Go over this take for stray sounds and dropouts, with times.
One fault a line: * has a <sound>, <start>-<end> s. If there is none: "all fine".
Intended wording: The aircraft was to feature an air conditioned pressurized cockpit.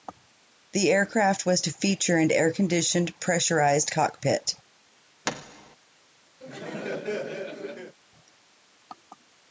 * has a thud, 5.2-5.8 s
* has a laugh, 6.4-8.0 s